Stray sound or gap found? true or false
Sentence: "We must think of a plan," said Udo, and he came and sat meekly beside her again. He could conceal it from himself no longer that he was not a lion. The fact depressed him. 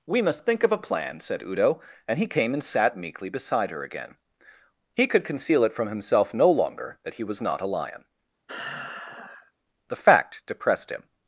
true